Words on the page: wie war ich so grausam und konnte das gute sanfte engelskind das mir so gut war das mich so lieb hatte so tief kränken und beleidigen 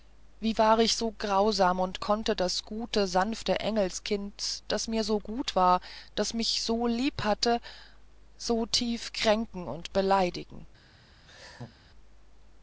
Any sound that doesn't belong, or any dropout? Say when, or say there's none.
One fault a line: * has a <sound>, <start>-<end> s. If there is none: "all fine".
* has a laugh, 11.3-11.8 s